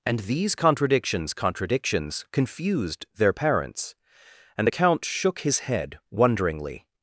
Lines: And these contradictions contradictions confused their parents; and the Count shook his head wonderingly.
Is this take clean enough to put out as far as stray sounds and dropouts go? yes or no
yes